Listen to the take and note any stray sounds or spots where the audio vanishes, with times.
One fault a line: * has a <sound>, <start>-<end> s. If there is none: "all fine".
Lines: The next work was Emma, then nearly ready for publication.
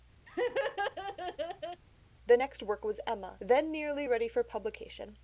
* has a laugh, 0.3-1.8 s